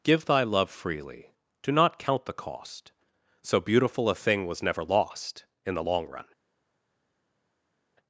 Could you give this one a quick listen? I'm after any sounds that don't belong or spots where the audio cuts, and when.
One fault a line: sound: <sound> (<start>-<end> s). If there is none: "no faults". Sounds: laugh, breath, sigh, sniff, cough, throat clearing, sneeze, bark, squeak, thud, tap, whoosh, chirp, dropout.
no faults